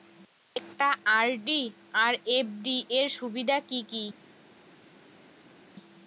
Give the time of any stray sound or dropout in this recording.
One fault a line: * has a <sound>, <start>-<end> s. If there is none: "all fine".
all fine